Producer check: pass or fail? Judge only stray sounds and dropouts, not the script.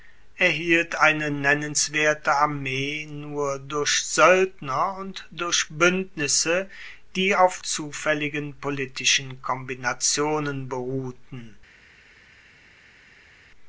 pass